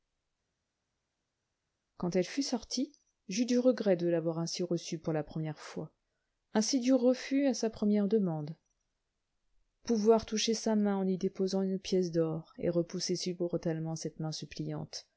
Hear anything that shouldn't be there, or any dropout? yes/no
no